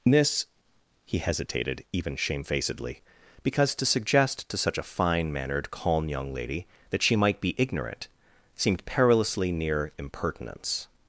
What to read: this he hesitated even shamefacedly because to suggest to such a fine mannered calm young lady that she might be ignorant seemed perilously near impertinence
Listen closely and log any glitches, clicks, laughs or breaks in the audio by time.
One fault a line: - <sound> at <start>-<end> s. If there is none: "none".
none